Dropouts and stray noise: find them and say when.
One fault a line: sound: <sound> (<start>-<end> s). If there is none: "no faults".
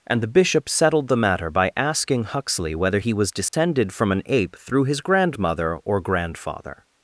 sound: dropout (3.5-3.5 s)